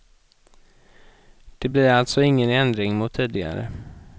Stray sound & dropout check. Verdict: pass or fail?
pass